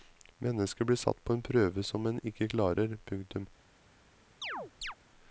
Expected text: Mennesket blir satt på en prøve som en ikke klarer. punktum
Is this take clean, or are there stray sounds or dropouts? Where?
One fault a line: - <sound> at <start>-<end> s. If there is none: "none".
- chirp at 4.4-5.0 s